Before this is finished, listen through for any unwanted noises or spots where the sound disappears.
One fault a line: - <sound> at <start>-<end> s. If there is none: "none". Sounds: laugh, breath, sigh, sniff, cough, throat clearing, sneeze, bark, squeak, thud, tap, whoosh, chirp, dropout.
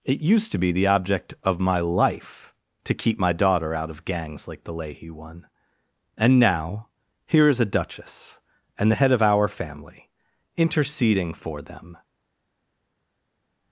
none